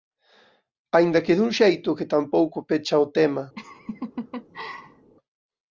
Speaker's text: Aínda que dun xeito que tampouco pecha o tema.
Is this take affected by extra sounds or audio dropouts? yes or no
yes